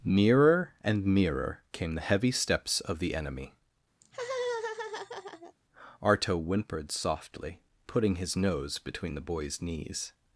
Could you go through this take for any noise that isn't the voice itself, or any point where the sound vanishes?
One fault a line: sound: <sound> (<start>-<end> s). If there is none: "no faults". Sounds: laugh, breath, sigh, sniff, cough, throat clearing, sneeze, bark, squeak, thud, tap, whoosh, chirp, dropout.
sound: laugh (4.0-5.5 s)